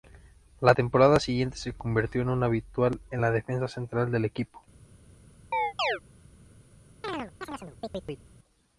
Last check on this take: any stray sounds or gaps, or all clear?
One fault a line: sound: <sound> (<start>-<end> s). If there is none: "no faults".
sound: chirp (5.5-6.0 s)
sound: chirp (7.0-8.3 s)